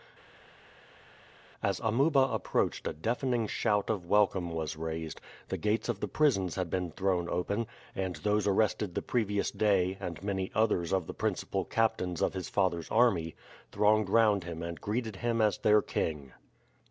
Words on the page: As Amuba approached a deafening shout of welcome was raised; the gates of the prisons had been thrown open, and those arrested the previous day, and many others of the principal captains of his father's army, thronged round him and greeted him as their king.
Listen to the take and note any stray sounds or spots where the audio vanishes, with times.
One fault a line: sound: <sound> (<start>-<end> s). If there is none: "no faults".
no faults